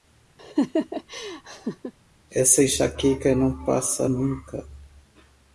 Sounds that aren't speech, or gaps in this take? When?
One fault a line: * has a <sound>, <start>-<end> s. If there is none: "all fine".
* has a laugh, 0.4-1.9 s